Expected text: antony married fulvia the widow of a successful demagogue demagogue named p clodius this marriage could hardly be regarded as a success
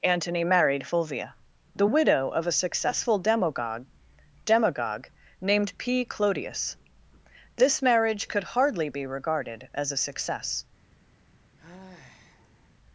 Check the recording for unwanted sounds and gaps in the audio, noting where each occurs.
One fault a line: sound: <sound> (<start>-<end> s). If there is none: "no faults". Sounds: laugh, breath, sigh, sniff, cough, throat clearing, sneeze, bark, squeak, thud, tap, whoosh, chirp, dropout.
sound: sigh (11.6-12.7 s)